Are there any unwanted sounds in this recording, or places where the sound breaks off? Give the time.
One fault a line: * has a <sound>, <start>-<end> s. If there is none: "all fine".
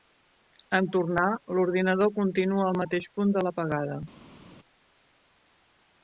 all fine